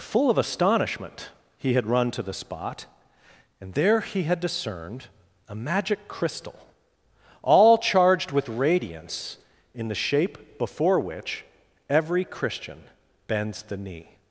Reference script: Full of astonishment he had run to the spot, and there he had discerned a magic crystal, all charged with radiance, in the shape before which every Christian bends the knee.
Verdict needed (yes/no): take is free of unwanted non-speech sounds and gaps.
yes